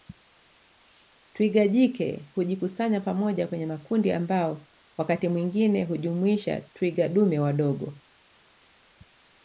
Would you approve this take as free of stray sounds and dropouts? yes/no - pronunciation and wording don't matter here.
yes